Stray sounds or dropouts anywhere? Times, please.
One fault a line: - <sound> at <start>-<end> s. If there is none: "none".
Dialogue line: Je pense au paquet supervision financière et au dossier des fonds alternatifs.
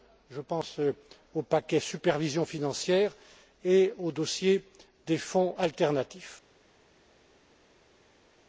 none